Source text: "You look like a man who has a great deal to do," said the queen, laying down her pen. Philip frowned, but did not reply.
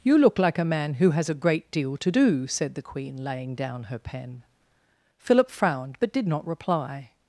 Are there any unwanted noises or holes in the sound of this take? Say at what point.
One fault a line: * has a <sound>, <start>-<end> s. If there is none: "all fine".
all fine